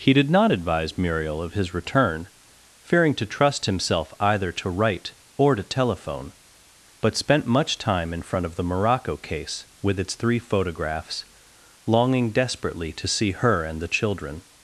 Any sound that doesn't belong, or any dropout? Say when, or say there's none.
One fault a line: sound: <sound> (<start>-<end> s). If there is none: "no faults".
no faults